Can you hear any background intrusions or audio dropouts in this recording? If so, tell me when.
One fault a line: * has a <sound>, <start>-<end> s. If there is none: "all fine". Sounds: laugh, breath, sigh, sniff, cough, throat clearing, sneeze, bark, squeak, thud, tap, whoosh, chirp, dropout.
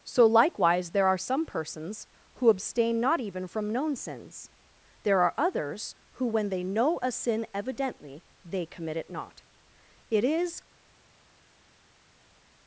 all fine